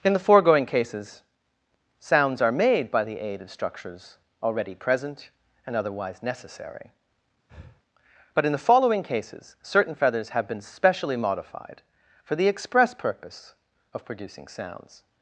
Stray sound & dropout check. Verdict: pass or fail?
fail